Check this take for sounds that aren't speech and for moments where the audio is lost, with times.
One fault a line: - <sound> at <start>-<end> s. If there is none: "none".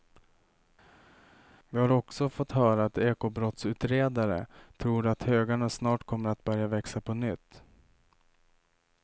none